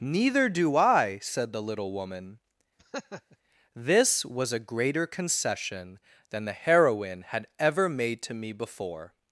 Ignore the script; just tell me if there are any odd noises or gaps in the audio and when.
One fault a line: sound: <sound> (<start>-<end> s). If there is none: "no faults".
sound: laugh (2.8-3.4 s)